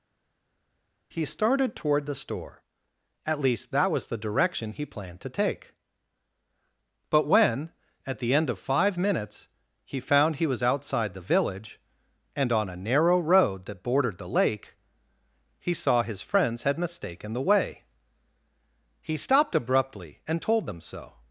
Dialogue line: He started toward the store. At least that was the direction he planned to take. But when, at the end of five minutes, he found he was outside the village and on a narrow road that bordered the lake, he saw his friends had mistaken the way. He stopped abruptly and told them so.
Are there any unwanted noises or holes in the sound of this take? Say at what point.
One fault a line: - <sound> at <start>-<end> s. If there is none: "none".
none